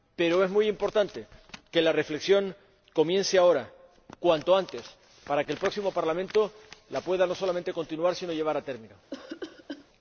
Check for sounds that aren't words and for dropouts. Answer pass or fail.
fail